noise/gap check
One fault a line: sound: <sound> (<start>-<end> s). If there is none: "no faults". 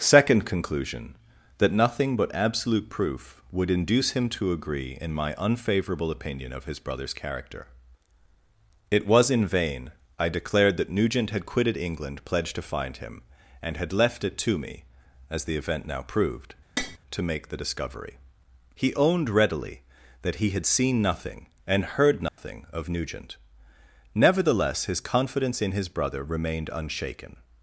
sound: tap (16.8-17.0 s)
sound: dropout (22.3-22.4 s)